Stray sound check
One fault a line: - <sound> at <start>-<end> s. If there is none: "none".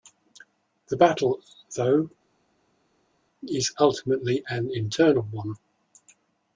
none